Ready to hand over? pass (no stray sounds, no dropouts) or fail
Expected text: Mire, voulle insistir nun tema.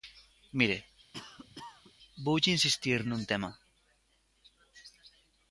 fail